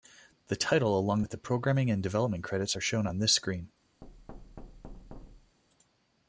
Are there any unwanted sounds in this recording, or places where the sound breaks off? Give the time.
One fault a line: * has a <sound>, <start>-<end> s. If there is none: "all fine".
* has a thud, 4.0-5.6 s